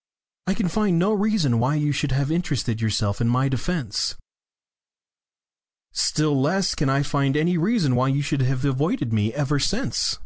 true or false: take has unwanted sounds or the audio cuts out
false